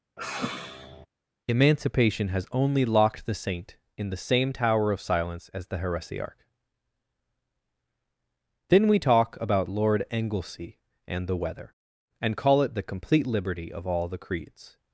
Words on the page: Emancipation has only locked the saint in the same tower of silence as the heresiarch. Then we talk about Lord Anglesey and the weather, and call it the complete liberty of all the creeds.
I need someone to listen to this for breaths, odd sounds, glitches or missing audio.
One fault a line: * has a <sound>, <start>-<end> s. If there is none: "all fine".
* has a sigh, 0.2-1.1 s